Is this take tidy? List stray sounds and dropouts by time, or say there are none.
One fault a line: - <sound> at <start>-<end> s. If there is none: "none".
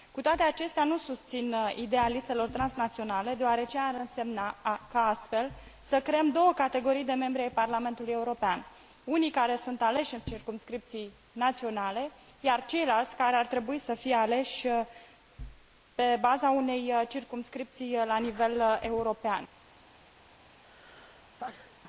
- sneeze at 20.6-21.7 s